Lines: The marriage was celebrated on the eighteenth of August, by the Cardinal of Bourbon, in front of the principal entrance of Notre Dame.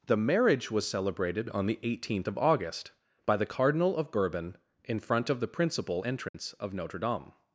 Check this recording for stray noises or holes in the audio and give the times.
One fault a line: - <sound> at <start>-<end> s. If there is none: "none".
- dropout at 6.3-6.3 s